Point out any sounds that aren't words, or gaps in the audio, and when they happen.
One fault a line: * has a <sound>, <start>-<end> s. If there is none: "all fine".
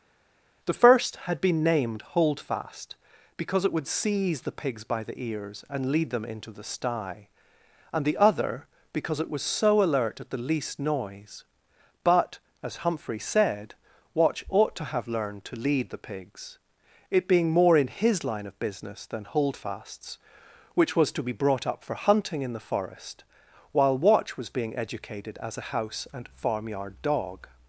all fine